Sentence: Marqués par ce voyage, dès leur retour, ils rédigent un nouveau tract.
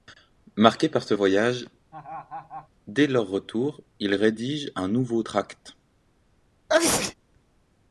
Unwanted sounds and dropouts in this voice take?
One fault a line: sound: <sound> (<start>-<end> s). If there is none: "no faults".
sound: laugh (1.9-2.7 s)
sound: sneeze (6.7-7.1 s)